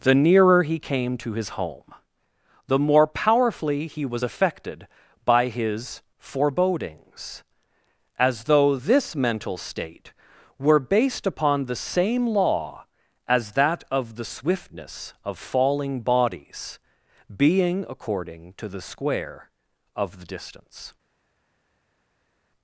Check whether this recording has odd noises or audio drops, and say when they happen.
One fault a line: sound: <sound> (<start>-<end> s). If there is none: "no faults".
no faults